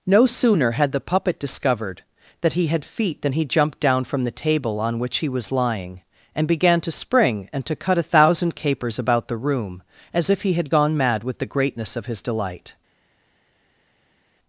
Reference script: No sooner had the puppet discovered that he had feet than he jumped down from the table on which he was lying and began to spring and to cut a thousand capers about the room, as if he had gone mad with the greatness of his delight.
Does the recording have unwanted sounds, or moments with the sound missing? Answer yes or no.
no